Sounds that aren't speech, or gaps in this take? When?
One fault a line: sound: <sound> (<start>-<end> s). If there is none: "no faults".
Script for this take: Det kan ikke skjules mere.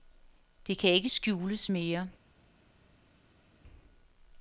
no faults